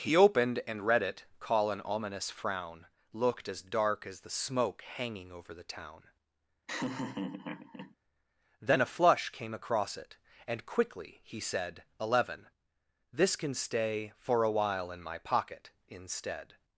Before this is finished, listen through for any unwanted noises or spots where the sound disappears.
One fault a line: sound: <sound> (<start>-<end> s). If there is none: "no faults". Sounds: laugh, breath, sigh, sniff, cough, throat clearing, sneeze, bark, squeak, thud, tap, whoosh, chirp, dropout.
sound: laugh (6.7-8.0 s)